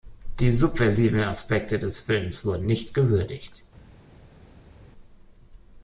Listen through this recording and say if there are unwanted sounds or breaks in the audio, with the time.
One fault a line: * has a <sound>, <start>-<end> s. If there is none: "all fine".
all fine